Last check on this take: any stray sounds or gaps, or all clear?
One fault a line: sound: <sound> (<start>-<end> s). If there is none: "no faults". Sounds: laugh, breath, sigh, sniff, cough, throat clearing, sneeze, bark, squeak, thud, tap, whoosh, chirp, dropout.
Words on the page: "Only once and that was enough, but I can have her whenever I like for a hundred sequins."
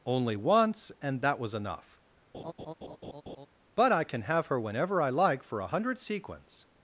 sound: laugh (2.3-3.5 s)